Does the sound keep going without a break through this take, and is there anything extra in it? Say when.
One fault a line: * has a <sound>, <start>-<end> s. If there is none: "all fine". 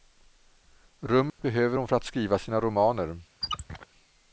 * has a dropout, 1.3-1.4 s
* has a squeak, 3.4-3.9 s